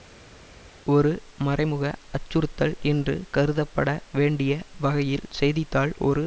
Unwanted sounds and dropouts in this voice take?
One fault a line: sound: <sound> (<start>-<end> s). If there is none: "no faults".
no faults